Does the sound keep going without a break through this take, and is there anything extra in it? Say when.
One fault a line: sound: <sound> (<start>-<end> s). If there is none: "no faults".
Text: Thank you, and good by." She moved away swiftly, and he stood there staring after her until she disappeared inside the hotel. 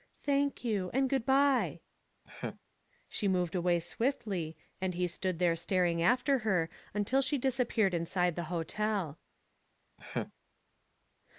sound: laugh (2.3-2.6 s)
sound: laugh (10.0-10.3 s)